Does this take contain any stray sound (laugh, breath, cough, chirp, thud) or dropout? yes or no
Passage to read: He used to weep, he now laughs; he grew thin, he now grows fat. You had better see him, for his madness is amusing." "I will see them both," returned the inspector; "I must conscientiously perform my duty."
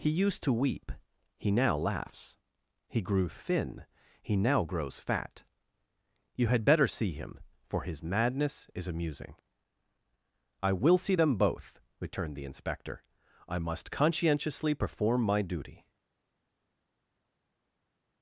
no